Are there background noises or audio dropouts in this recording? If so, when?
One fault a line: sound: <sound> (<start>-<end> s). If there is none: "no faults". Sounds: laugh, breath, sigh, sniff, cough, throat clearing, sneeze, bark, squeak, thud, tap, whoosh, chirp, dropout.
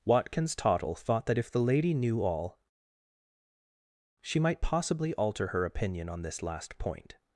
no faults